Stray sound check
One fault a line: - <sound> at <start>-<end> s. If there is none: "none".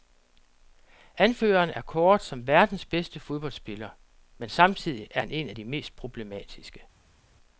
none